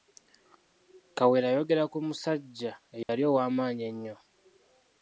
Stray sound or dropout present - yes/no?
yes